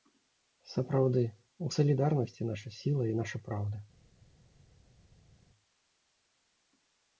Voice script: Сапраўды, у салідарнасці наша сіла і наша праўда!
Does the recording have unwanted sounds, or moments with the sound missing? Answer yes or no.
no